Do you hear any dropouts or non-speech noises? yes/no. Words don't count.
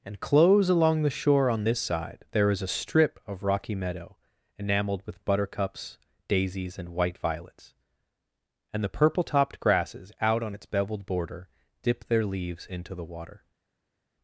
no